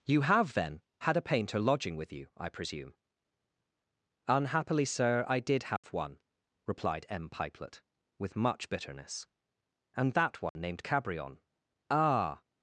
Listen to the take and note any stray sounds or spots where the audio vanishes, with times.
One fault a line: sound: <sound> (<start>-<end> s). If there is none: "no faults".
sound: dropout (5.8-5.8 s)
sound: dropout (10.5-10.6 s)